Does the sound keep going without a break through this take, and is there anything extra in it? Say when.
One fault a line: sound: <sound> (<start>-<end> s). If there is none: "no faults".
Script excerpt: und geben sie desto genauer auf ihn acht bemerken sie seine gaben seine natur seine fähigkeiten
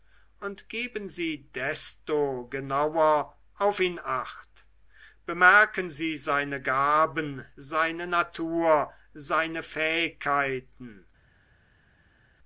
no faults